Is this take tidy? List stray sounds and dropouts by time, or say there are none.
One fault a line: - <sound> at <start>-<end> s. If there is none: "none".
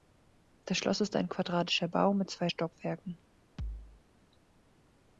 - thud at 3.6-4.0 s